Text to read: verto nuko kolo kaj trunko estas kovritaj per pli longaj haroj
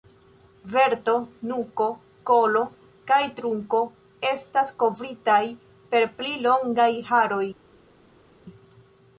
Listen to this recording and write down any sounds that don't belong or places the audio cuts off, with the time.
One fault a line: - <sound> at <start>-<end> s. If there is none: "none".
none